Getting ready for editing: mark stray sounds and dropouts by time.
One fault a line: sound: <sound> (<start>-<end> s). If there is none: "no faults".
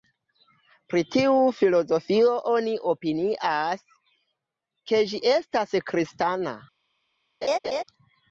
sound: laugh (7.4-7.8 s)